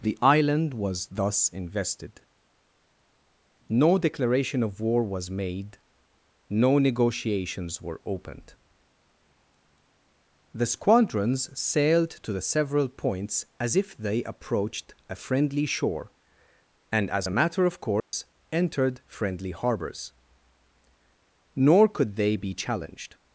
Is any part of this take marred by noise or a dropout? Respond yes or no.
yes